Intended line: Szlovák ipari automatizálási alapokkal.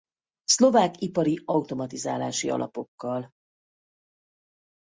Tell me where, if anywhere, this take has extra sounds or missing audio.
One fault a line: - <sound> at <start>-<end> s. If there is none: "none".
none